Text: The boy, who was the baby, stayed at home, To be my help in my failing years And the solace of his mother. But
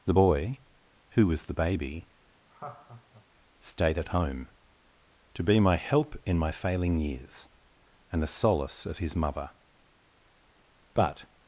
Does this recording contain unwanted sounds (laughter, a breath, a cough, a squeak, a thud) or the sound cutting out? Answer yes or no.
yes